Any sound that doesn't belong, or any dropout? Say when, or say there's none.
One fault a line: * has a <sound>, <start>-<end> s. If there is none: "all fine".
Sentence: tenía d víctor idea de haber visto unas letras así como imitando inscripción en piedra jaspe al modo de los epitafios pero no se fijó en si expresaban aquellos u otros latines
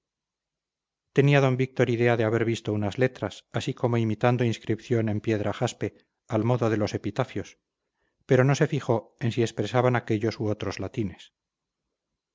all fine